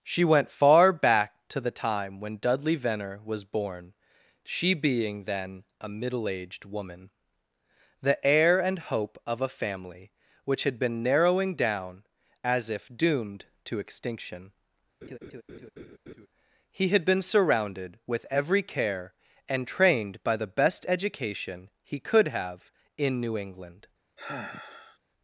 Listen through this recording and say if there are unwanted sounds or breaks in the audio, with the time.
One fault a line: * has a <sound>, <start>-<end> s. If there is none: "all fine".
* has a laugh, 15.0-16.3 s
* has a sigh, 24.2-25.0 s